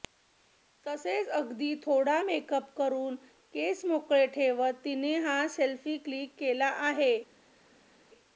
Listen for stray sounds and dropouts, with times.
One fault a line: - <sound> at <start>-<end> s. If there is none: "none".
none